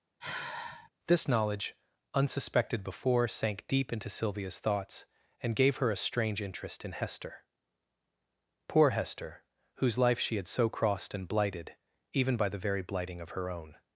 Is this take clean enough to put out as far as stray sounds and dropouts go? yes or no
no